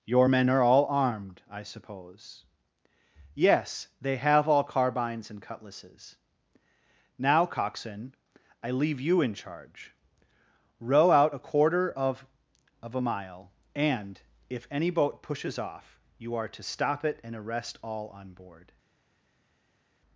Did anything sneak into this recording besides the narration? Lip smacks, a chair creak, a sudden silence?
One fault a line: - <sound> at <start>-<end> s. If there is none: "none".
none